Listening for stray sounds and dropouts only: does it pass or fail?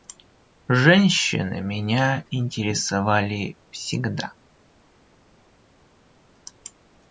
pass